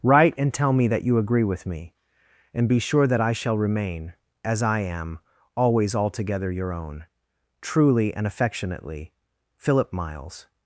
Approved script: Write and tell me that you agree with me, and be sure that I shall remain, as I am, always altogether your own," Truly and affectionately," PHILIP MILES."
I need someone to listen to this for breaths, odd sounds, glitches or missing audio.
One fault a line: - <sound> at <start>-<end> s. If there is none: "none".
none